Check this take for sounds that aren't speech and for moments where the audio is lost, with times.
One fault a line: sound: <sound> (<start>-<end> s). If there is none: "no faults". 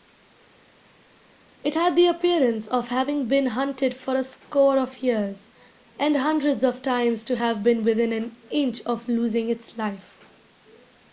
no faults